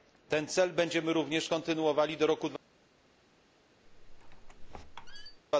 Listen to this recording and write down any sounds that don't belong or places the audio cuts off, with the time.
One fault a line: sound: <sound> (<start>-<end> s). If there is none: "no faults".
sound: squeak (3.9-5.4 s)